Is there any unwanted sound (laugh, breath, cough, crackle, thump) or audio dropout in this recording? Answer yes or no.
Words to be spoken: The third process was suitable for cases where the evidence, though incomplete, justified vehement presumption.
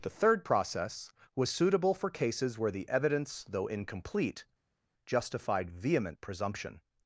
no